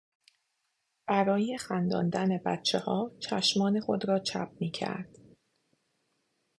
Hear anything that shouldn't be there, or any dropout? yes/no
no